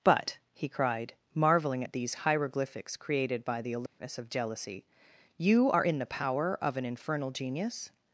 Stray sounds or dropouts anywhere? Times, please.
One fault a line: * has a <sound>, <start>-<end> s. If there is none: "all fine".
* has a dropout, 3.9-4.0 s